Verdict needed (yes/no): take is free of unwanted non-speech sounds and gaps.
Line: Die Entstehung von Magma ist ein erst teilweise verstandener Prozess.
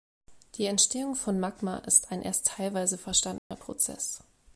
no